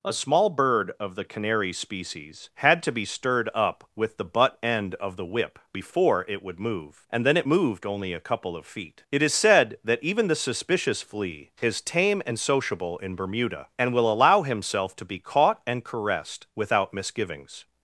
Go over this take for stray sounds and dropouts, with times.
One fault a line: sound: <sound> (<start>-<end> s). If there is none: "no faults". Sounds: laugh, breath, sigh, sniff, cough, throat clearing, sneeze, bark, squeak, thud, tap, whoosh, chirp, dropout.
no faults